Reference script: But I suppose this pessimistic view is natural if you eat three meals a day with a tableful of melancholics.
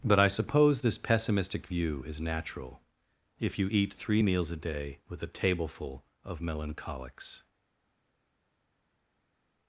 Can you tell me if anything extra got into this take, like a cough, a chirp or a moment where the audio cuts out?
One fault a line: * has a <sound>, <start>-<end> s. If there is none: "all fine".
all fine